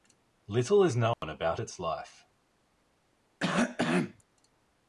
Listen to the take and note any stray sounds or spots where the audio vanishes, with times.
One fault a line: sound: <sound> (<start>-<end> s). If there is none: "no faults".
sound: dropout (1.1-1.2 s)
sound: cough (3.4-4.2 s)